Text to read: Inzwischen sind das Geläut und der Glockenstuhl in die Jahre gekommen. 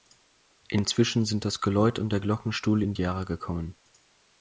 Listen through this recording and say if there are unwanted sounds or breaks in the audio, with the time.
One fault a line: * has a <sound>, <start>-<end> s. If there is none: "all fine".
all fine